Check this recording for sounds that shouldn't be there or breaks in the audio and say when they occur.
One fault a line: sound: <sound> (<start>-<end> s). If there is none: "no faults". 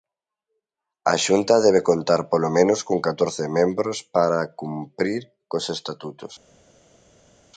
no faults